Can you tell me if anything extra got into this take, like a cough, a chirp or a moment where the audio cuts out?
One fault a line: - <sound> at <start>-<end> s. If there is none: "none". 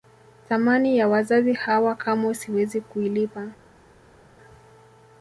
none